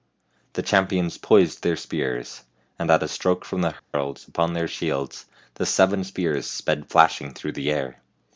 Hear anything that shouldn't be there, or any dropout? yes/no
yes